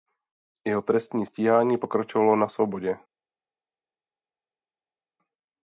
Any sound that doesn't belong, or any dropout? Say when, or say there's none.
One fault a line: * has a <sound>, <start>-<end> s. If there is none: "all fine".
all fine